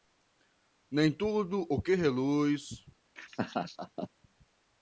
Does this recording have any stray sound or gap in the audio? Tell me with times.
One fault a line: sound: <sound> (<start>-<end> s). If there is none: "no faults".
sound: laugh (3.2-4.1 s)